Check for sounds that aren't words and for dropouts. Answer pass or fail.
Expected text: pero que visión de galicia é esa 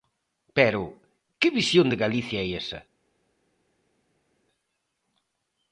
pass